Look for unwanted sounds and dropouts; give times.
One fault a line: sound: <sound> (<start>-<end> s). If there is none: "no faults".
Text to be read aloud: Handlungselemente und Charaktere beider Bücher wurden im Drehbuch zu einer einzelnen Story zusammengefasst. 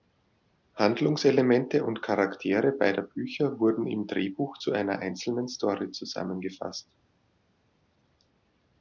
no faults